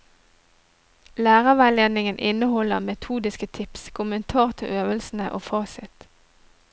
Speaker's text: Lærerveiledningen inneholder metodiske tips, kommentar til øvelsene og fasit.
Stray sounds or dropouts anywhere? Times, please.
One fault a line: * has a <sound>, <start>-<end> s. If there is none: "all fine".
all fine